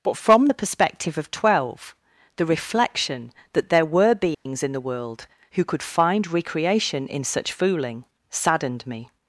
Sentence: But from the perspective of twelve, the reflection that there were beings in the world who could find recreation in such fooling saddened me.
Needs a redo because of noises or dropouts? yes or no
yes